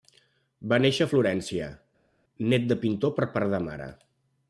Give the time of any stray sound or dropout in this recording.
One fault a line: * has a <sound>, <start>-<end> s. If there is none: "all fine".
all fine